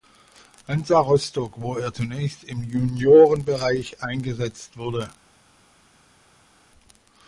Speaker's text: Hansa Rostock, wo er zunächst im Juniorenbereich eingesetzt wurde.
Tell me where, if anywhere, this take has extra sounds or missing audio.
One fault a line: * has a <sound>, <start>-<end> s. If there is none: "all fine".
all fine